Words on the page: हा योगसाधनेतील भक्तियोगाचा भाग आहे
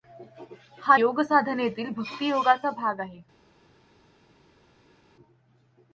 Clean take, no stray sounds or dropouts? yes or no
yes